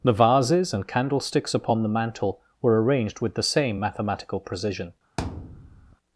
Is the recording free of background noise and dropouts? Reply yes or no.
no